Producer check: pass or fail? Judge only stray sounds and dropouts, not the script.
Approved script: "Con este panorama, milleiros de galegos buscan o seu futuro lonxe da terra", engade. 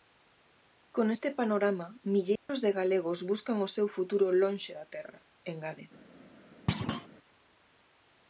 fail